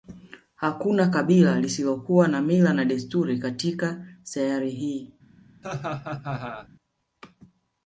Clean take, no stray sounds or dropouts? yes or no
no